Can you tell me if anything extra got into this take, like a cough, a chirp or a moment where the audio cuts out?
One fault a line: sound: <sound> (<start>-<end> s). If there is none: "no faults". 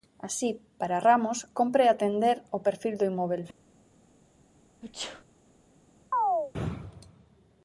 sound: sneeze (4.8-5.2 s)
sound: chirp (6.1-6.5 s)